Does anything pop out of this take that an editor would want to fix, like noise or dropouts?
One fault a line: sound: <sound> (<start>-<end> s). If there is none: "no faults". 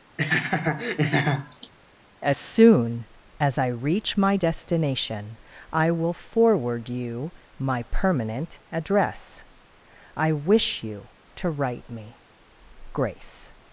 sound: laugh (0.2-1.7 s)